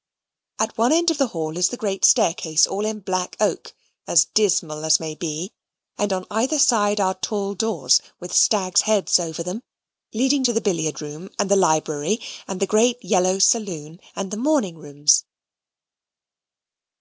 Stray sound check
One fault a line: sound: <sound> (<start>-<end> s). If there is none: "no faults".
no faults